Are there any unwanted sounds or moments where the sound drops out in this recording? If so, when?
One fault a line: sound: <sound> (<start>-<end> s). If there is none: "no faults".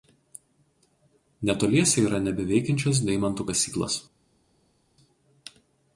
no faults